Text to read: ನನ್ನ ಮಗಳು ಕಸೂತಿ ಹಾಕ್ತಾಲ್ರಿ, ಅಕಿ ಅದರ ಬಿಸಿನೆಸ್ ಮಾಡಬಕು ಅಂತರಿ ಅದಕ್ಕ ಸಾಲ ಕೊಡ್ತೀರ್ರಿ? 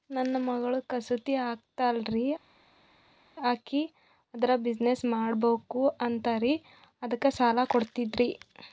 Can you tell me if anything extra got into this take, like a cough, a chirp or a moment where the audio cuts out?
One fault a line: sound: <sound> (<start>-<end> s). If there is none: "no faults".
no faults